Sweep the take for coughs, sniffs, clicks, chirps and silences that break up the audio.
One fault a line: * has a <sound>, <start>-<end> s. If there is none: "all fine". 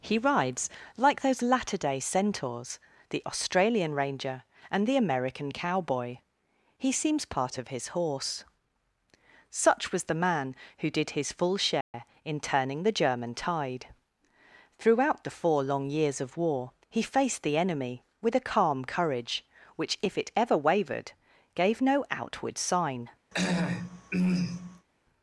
* has a dropout, 11.8-11.9 s
* has a throat clearing, 23.3-24.9 s